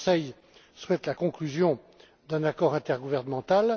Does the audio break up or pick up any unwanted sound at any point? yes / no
no